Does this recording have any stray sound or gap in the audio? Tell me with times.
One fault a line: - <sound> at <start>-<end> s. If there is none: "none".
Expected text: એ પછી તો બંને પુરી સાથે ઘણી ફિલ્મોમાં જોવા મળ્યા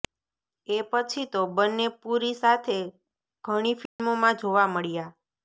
- dropout at 3.9-4.0 s